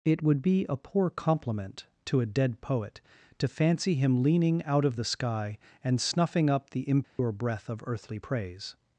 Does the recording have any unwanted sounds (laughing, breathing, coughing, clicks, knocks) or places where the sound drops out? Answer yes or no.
yes